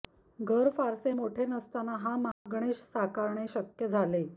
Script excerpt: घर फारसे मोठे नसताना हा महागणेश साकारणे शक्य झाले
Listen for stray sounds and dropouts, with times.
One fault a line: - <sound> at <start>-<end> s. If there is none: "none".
- dropout at 2.3-2.5 s